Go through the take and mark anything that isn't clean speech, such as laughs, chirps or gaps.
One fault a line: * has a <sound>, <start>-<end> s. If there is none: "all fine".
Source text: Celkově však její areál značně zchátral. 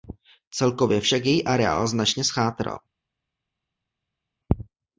all fine